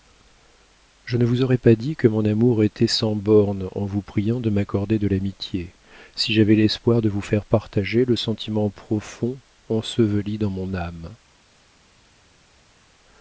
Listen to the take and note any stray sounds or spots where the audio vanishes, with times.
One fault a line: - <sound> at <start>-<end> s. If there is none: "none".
none